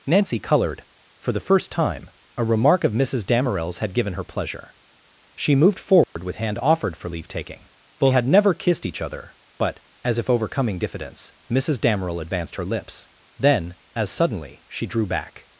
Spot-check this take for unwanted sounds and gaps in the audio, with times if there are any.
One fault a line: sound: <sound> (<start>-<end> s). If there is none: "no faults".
sound: dropout (6.0-6.2 s)